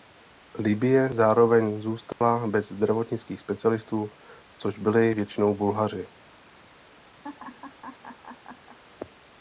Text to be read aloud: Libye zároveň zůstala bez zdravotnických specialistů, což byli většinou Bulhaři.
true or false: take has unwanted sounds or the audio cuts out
true